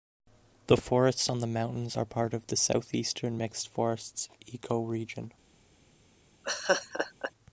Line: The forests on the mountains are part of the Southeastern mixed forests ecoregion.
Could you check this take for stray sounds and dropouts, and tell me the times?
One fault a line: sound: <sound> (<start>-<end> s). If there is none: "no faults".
sound: laugh (6.4-7.3 s)